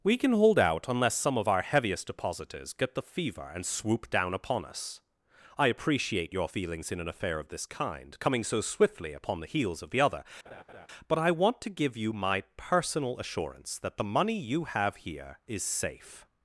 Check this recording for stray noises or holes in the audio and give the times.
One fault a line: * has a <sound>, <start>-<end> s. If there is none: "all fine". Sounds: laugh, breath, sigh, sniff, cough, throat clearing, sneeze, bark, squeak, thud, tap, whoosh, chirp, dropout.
* has a laugh, 10.4-10.9 s